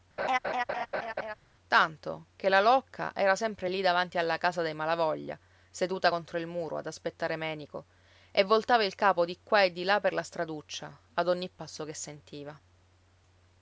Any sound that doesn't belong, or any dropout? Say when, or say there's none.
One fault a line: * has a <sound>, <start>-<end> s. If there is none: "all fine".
* has a laugh, 0.2-1.3 s